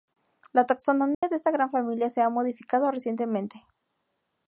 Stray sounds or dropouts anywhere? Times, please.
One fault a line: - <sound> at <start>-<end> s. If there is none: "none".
- dropout at 1.1-1.2 s